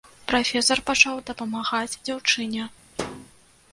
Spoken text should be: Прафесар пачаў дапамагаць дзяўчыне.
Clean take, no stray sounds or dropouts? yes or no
no